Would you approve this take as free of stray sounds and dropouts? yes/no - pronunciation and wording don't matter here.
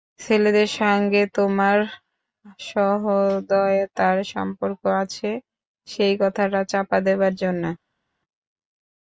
yes